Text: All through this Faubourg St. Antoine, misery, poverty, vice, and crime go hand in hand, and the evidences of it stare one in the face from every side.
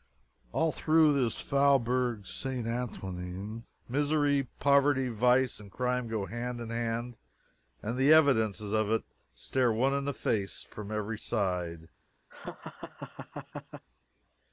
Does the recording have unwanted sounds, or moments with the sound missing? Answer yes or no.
yes